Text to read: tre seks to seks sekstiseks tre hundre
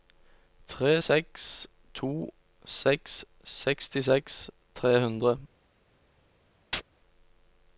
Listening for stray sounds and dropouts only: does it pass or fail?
fail